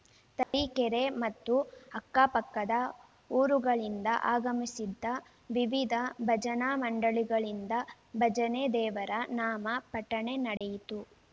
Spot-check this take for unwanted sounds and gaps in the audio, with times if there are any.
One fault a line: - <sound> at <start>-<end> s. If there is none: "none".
- dropout at 0.4-0.5 s
- dropout at 10.6-10.6 s